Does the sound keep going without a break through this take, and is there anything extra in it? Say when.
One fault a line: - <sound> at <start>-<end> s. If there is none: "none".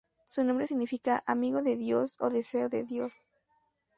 none